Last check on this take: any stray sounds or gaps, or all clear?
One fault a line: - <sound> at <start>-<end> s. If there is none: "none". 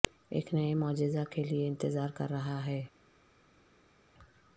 none